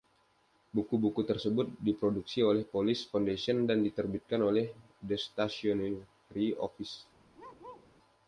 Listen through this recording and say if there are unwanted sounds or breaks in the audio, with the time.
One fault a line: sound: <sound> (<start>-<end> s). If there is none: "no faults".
sound: bark (7.3-7.9 s)